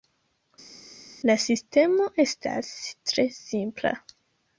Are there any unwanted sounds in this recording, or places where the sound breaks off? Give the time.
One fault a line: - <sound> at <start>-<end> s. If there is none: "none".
none